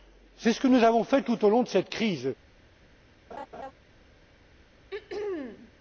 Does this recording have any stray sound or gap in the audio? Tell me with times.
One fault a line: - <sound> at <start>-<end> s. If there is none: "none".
- laugh at 3.3-3.7 s
- throat clearing at 4.9-5.7 s